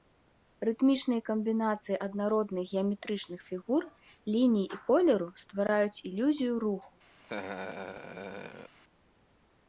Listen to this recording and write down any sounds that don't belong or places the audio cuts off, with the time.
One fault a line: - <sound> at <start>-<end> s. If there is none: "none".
- laugh at 7.2-8.8 s